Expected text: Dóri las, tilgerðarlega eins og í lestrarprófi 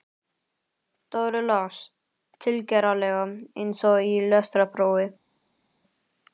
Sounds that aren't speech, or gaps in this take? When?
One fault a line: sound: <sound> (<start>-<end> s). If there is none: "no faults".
no faults